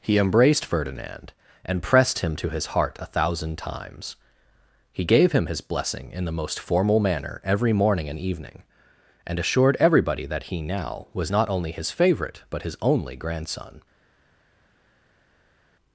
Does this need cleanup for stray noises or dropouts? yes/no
no